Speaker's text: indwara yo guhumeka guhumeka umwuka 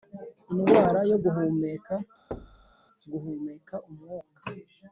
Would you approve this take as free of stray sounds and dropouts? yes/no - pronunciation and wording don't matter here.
no